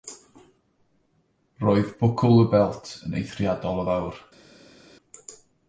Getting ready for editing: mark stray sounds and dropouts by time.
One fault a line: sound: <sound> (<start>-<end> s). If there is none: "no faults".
no faults